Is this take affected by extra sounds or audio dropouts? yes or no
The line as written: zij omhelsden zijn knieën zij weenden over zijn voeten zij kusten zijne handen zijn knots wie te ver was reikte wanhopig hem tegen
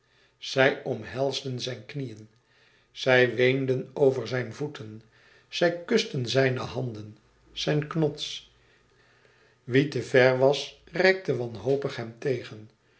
no